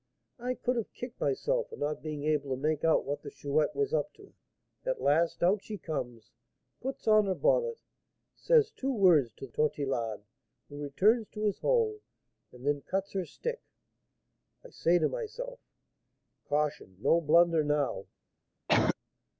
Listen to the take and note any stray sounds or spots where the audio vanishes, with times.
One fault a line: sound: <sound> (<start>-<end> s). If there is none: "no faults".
sound: cough (18.7-19.0 s)